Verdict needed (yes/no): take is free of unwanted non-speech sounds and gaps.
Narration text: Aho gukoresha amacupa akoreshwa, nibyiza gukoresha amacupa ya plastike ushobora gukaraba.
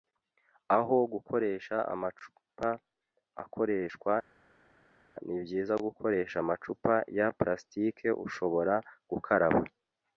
yes